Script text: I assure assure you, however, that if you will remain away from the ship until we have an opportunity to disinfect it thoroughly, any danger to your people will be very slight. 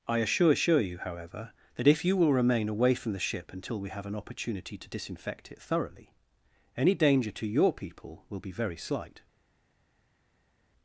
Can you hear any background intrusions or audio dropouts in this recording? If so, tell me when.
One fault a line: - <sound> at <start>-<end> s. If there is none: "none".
none